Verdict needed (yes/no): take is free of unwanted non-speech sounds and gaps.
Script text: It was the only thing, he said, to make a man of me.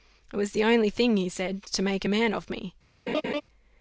no